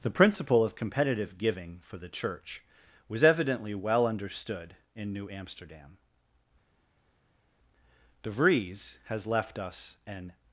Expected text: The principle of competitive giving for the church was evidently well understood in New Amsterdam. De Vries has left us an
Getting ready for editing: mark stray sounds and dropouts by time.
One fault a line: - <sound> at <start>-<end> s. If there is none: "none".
none